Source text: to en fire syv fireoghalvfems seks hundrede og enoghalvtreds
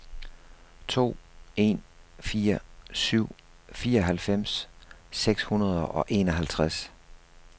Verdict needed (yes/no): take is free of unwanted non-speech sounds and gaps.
yes